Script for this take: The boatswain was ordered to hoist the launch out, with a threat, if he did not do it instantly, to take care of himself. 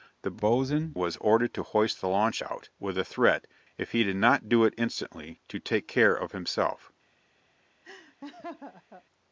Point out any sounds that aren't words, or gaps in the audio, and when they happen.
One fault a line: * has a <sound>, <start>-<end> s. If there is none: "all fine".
* has a laugh, 7.8-9.0 s